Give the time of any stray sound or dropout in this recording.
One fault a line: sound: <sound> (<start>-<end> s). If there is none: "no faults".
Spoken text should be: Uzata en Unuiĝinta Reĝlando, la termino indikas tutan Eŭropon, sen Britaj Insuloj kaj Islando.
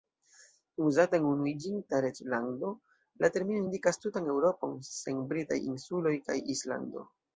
no faults